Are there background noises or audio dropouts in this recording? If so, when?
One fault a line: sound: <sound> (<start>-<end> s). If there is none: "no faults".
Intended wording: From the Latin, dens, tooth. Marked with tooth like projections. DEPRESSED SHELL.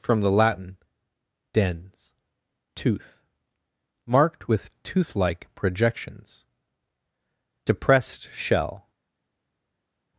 no faults